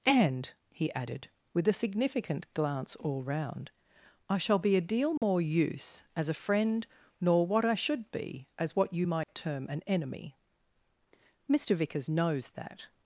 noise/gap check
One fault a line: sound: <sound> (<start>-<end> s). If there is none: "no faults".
sound: dropout (5.2-5.2 s)
sound: dropout (9.2-9.3 s)